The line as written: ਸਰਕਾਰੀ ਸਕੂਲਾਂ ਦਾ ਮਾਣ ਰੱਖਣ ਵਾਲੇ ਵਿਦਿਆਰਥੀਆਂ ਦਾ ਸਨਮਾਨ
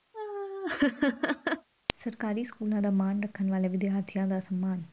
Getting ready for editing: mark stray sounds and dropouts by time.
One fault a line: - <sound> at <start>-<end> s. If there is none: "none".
- laugh at 0.1-1.7 s